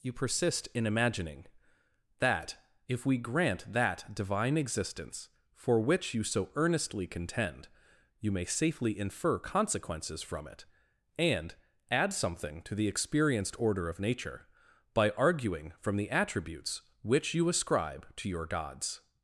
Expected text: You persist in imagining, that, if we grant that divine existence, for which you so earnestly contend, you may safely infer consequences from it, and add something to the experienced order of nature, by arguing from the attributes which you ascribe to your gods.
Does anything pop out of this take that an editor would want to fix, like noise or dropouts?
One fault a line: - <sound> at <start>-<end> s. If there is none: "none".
none